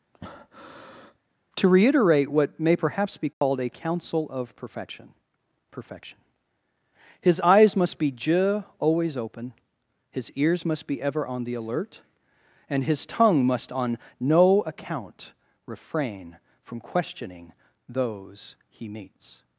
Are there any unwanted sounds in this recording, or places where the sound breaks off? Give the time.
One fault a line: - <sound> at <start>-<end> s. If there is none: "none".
- breath at 0.1-1.2 s
- dropout at 3.3-3.4 s